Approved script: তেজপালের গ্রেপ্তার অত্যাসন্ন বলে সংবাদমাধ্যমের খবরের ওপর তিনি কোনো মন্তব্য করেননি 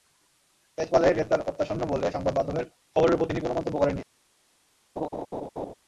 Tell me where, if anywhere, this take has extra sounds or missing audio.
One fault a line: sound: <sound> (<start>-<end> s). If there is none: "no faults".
sound: laugh (5.0-5.7 s)